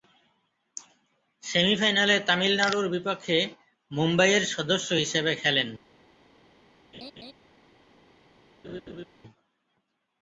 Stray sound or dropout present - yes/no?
yes